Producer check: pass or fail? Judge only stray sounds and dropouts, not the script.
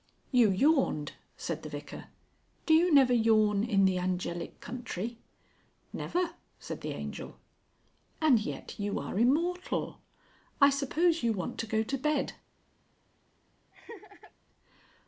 fail